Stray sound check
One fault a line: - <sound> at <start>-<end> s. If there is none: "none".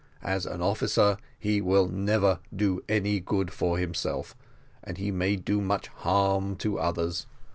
none